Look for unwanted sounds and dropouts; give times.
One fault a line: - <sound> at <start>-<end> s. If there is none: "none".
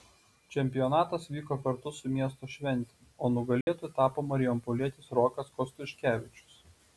- dropout at 3.6-3.7 s